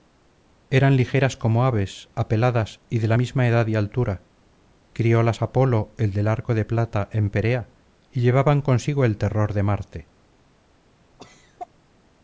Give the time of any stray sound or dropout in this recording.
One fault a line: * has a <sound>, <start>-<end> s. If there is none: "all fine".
* has a cough, 11.2-11.7 s